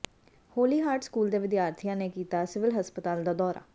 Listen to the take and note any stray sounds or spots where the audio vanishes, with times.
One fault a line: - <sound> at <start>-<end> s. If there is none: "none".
none